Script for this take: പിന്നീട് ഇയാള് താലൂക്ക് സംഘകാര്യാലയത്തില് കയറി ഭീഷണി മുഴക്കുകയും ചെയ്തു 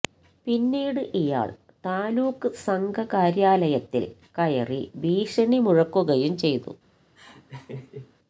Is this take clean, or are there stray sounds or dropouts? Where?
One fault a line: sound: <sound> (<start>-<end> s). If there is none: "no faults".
sound: laugh (7.1-8.1 s)